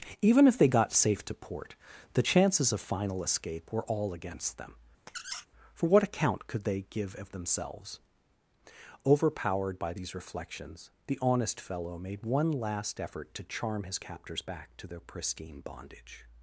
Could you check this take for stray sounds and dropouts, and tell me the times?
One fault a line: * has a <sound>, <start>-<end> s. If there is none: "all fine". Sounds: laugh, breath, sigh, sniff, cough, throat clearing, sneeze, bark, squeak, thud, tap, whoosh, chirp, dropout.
* has a squeak, 5.1-5.5 s